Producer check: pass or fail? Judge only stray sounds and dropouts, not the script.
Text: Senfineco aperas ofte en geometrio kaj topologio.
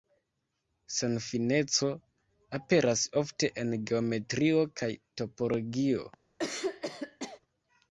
fail